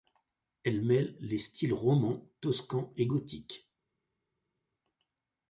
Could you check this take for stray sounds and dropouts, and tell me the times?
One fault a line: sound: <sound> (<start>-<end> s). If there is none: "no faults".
no faults